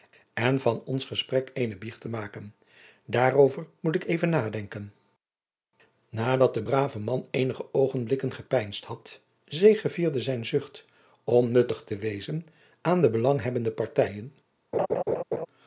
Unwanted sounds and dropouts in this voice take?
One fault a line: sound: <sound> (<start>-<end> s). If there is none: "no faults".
sound: laugh (14.7-15.5 s)